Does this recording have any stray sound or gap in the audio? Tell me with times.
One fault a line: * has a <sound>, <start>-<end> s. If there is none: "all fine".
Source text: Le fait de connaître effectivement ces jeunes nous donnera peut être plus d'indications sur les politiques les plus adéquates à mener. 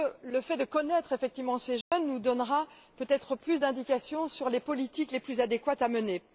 * has a dropout, 1.8-1.9 s